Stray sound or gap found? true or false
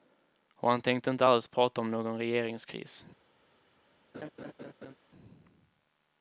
true